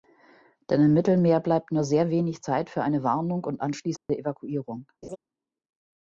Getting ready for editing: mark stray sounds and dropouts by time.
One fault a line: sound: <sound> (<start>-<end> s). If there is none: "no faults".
sound: dropout (4.0-4.1 s)
sound: laugh (5.0-5.2 s)